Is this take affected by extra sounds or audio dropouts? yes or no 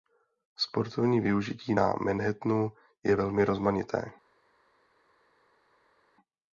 no